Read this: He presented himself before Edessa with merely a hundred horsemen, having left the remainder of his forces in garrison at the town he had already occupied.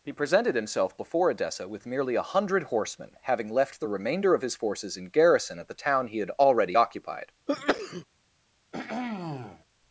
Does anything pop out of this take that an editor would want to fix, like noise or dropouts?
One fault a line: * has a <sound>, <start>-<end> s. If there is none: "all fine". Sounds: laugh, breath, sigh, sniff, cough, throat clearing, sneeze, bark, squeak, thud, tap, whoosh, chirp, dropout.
* has a sneeze, 7.5-8.0 s
* has a throat clearing, 8.7-9.7 s